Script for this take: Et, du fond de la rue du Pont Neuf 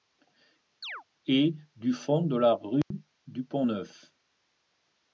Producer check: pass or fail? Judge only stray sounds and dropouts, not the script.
fail